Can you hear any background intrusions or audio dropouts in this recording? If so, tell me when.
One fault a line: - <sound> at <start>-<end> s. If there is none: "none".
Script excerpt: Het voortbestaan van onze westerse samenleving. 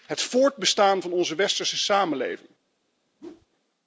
- whoosh at 3.2-3.5 s